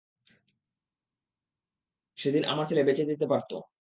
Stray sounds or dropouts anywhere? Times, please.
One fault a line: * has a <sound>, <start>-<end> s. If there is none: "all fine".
all fine